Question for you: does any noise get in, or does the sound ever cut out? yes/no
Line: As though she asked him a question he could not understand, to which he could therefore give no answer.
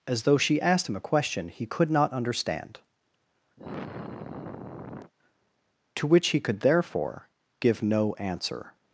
yes